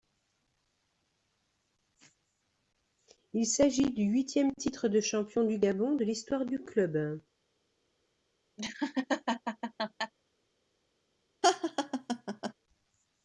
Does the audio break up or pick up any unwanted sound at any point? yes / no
yes